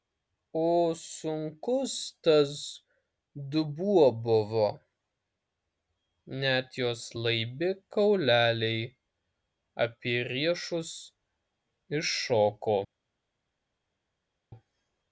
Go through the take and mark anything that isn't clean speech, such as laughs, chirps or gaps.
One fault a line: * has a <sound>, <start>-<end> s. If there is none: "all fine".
all fine